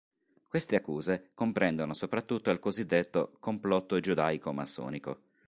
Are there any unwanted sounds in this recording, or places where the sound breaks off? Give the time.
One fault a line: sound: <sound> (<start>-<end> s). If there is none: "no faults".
no faults